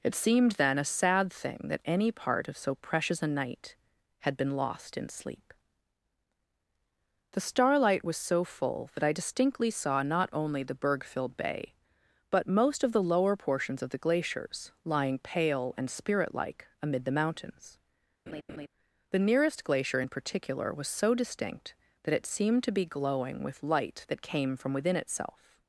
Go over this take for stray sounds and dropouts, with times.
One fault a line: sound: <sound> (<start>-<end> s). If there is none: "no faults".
sound: laugh (18.3-18.7 s)